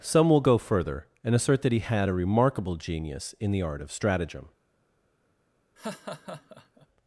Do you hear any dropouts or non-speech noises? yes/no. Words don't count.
yes